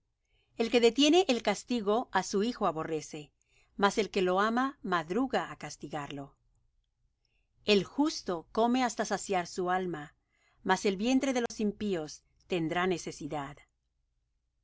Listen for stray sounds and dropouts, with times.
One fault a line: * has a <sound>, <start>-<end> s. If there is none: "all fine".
* has a dropout, 11.5-11.5 s